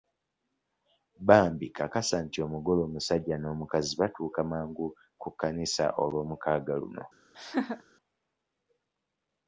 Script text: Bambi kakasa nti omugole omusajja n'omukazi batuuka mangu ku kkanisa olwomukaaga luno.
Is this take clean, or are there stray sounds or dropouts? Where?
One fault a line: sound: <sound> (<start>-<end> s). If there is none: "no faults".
sound: laugh (7.3-7.8 s)